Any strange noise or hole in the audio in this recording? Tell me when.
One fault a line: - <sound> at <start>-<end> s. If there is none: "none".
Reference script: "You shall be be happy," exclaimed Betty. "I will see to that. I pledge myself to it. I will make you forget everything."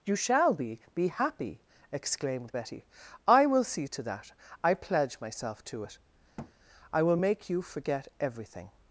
- thud at 6.4-6.5 s